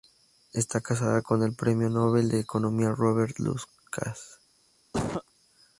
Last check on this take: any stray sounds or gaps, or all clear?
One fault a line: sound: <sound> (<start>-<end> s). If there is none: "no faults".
sound: cough (4.9-5.2 s)